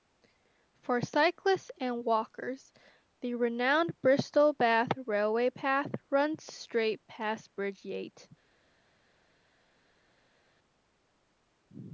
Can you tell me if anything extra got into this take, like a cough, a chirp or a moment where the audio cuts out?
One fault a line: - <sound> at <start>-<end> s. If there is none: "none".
none